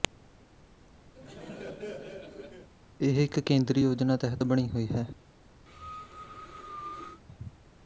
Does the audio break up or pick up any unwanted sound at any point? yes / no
yes